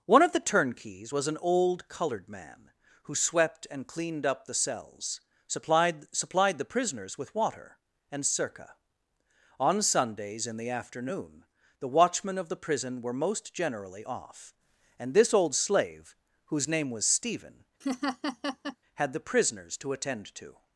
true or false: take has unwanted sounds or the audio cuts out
true